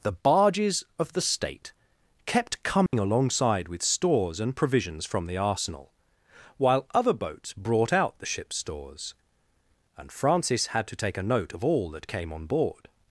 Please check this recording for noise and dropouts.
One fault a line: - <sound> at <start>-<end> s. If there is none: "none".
- dropout at 2.9-2.9 s